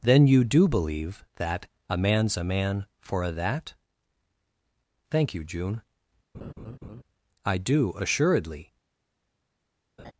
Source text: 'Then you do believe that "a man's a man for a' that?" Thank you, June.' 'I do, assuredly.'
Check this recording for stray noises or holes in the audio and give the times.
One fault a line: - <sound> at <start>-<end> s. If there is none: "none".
- laugh at 6.3-7.0 s
- laugh at 10.0-10.1 s